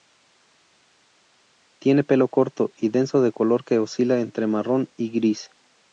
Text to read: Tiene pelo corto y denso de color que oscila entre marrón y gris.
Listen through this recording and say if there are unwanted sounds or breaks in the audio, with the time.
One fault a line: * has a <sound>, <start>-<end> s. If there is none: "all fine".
all fine